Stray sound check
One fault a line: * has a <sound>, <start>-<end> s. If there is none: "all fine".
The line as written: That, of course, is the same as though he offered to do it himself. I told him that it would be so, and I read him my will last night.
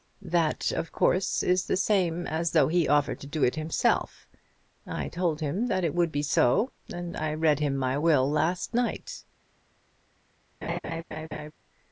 * has a laugh, 10.6-11.5 s